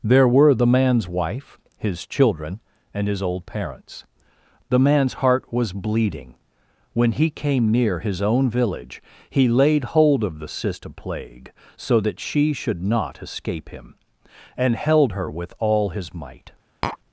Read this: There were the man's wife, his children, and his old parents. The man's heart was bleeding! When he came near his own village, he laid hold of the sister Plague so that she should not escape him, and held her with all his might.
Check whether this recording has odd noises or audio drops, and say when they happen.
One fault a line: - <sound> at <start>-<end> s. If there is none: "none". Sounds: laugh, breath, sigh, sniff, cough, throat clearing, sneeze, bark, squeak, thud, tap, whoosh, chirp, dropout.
- tap at 16.8-17.0 s